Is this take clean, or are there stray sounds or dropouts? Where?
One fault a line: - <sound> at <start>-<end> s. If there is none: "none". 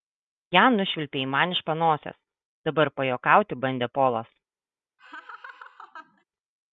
- laugh at 5.0-6.2 s